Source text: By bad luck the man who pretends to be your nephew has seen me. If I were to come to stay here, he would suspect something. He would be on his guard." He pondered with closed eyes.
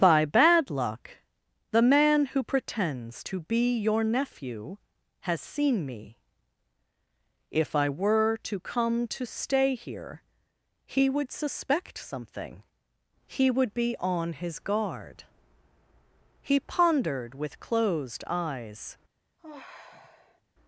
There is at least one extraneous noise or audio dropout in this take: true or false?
true